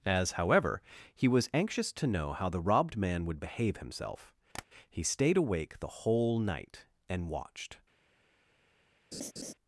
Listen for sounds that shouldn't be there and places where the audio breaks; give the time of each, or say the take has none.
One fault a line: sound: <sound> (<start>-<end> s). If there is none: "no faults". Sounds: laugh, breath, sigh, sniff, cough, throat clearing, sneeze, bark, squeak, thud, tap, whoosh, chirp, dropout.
sound: tap (4.5-4.7 s)
sound: laugh (9.1-9.5 s)